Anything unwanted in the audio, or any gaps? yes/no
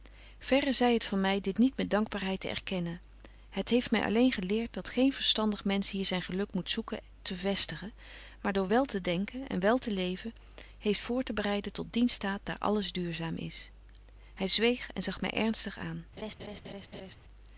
yes